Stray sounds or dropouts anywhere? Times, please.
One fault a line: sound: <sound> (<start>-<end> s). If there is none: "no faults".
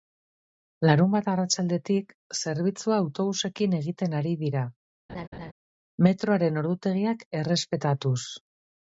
sound: laugh (5.1-5.5 s)